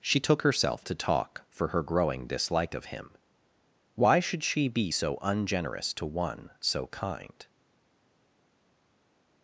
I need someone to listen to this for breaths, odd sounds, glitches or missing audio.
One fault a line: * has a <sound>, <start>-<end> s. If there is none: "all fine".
all fine